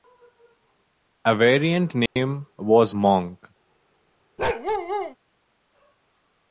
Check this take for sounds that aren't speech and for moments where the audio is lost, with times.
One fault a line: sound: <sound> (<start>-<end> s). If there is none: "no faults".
sound: dropout (2.1-2.2 s)
sound: bark (4.4-5.2 s)